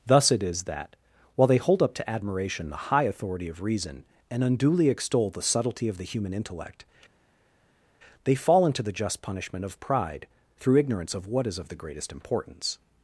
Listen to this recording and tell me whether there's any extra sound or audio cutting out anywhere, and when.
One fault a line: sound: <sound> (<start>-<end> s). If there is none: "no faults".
no faults